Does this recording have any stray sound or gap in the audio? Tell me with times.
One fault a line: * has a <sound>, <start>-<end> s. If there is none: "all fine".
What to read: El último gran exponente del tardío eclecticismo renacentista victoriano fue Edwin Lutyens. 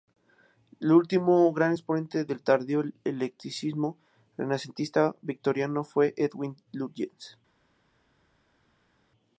all fine